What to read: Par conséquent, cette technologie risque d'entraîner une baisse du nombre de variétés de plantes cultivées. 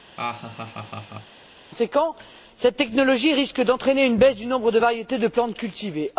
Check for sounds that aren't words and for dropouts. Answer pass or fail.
fail